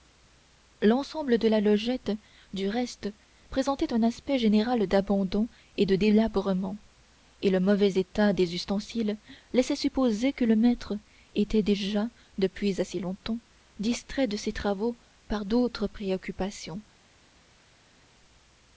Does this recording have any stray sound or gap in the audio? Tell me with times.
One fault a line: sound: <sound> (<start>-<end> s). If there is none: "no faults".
no faults